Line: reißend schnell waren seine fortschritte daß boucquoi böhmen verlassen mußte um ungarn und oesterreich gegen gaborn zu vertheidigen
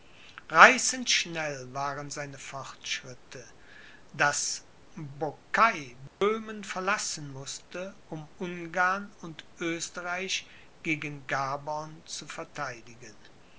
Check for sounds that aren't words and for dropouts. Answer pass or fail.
fail